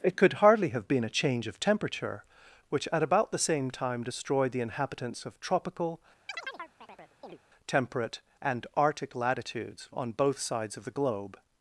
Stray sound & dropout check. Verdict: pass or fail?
fail